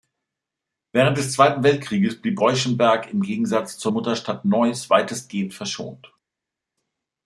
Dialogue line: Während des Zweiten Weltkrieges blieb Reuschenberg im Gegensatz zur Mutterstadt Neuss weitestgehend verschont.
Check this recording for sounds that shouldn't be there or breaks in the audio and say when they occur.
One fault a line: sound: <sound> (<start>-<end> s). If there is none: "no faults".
no faults